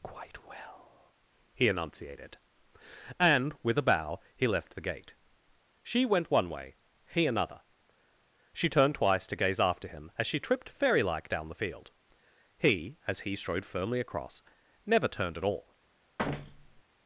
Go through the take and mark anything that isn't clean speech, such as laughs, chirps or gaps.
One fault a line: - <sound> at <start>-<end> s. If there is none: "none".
- thud at 16.2-16.8 s